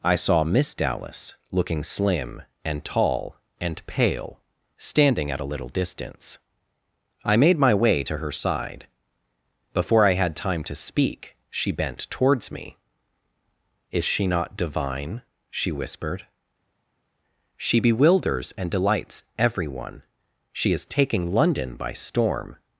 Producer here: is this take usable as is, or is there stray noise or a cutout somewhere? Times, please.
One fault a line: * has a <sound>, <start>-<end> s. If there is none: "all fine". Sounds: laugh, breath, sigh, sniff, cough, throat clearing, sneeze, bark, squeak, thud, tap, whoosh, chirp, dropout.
all fine